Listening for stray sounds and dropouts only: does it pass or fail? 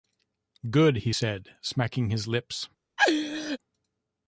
fail